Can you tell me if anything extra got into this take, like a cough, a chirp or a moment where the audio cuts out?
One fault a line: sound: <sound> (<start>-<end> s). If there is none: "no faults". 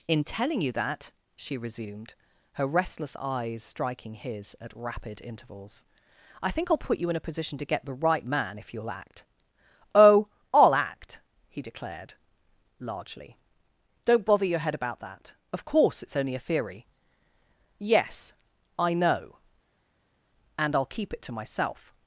no faults